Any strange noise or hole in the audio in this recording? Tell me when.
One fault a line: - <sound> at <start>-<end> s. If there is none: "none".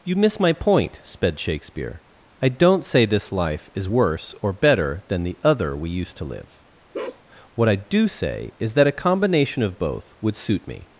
- bark at 6.9-7.2 s